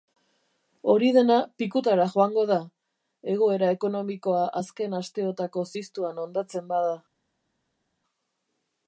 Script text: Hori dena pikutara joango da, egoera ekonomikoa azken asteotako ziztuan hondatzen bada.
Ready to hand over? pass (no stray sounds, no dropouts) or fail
pass